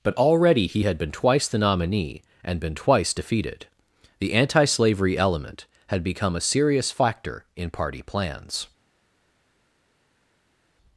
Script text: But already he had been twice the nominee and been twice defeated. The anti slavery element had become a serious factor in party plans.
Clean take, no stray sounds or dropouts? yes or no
yes